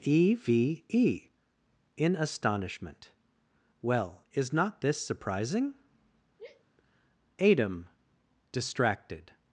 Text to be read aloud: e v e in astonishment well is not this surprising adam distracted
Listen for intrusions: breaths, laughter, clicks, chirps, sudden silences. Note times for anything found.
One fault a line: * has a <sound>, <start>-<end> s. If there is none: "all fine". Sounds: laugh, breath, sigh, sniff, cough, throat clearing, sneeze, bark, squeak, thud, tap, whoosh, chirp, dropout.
* has a sigh, 6.4-6.6 s